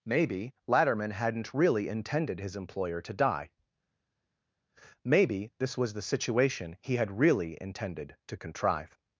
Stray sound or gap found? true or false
false